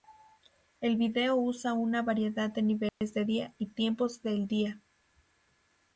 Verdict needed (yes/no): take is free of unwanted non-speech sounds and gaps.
no